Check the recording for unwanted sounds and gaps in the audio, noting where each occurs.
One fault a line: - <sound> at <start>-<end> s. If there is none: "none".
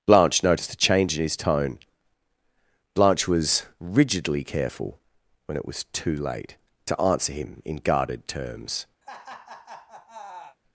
- laugh at 9.0-10.6 s